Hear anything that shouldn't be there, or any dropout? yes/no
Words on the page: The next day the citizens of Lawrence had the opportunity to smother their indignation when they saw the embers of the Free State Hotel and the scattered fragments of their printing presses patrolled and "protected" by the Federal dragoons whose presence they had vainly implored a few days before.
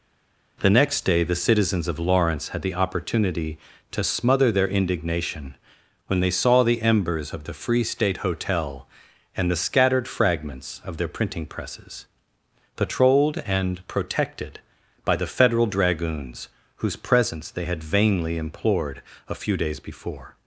no